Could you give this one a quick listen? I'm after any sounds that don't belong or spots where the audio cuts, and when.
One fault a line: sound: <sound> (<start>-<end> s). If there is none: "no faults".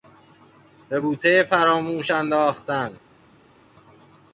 no faults